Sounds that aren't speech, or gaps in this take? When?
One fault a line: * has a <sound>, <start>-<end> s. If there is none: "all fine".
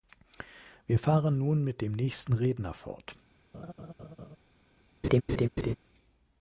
* has a laugh, 3.5-4.4 s
* has a laugh, 5.0-5.8 s